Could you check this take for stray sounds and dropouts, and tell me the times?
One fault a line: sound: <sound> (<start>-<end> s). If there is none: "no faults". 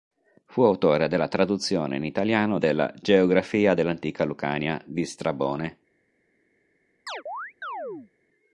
sound: chirp (7.1-8.1 s)